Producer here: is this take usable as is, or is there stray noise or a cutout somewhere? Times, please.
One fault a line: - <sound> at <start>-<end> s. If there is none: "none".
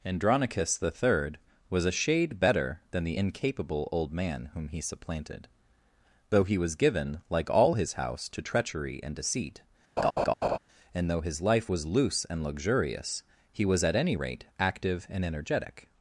- laugh at 10.0-10.6 s